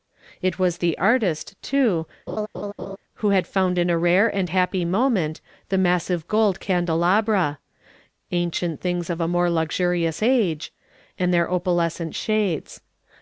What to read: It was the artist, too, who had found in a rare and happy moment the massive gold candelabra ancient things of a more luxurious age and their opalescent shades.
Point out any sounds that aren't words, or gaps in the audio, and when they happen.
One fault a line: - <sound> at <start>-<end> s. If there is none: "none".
- laugh at 2.3-3.0 s